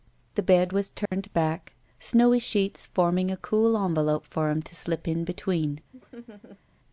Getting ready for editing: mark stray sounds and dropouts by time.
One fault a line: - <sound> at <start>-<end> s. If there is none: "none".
- dropout at 1.1-1.1 s
- laugh at 5.9-6.6 s